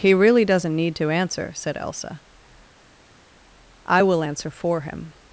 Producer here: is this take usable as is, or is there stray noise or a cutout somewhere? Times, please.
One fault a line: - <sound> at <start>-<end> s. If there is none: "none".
none